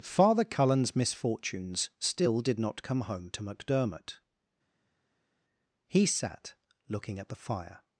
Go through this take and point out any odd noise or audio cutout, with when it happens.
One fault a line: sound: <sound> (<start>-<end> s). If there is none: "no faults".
no faults